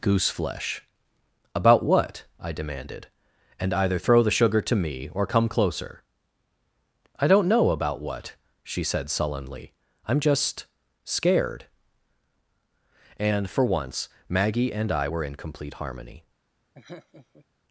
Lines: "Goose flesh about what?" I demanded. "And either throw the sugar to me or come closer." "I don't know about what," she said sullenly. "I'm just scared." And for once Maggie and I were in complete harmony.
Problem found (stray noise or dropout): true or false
true